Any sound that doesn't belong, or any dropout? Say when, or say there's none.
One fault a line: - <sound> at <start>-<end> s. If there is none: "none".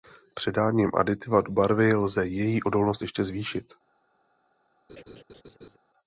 - laugh at 4.9-5.8 s